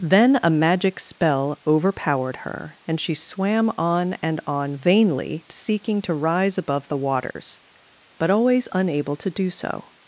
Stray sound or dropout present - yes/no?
yes